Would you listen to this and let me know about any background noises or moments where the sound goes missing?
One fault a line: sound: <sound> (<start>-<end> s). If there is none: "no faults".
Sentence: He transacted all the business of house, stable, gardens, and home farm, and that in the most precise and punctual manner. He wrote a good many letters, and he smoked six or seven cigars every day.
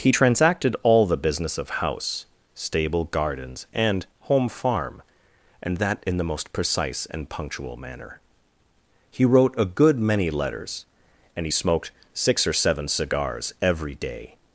no faults